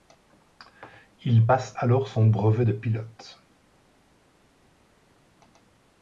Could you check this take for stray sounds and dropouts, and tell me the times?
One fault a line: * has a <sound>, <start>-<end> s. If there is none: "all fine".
all fine